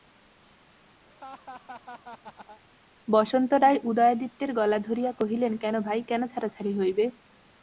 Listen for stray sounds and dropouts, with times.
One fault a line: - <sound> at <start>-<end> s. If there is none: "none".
- laugh at 1.1-2.6 s